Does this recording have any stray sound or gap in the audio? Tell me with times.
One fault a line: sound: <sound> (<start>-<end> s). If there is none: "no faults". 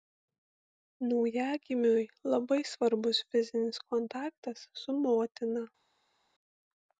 no faults